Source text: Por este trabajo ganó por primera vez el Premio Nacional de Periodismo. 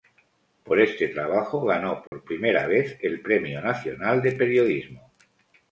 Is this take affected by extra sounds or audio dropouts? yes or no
yes